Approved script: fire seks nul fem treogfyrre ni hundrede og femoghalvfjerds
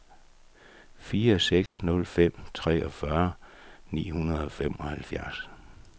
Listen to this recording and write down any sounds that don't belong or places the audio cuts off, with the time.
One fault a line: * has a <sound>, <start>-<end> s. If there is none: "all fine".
* has a dropout, 1.7-1.8 s